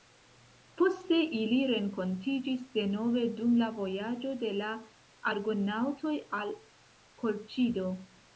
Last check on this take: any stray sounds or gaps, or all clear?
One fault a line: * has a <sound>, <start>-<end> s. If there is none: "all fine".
all fine